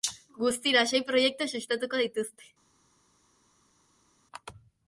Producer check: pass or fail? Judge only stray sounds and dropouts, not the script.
pass